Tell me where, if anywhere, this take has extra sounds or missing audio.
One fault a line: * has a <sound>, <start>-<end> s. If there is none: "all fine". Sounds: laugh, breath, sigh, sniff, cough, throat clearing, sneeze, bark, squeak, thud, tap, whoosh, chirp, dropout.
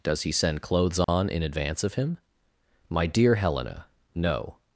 * has a dropout, 1.0-1.1 s